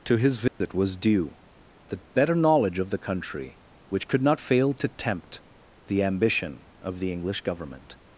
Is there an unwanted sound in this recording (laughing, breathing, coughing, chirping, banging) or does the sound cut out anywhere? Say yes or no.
yes